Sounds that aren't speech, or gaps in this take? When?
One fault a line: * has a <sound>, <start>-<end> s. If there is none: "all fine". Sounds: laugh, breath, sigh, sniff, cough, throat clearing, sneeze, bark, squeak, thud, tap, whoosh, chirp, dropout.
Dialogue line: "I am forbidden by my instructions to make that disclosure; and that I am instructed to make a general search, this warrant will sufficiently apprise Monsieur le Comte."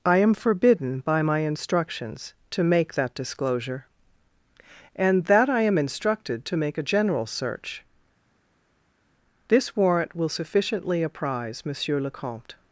all fine